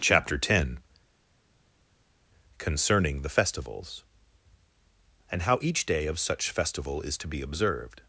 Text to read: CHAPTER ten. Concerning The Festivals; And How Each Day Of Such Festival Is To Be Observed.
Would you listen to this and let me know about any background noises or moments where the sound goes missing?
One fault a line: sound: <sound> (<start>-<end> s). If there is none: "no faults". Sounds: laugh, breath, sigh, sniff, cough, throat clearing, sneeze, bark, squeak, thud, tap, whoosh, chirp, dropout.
no faults